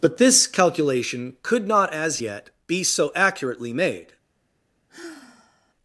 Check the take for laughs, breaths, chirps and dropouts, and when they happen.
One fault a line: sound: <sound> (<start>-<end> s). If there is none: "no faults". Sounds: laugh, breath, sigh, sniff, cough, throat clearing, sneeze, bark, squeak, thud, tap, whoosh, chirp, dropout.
sound: sigh (4.9-5.7 s)